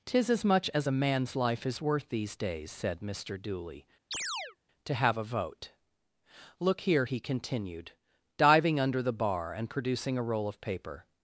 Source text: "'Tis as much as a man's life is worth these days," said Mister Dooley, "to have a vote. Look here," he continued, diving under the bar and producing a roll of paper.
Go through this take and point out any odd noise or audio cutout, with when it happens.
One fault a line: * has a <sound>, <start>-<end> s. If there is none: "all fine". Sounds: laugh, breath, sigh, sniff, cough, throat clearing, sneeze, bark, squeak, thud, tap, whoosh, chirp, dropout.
* has a chirp, 4.1-4.6 s